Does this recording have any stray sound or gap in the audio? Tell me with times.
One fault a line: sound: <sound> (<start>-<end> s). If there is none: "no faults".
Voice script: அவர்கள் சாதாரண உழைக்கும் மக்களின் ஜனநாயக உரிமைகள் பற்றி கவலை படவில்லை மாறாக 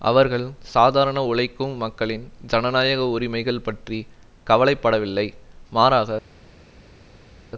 no faults